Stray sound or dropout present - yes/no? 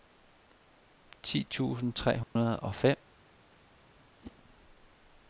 yes